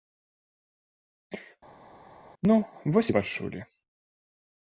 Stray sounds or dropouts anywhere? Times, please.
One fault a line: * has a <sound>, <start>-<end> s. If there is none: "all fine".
all fine